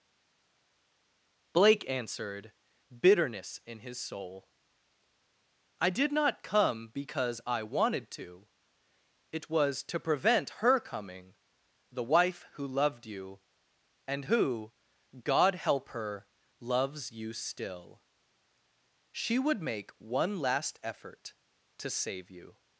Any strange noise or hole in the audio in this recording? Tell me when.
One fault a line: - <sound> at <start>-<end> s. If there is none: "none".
none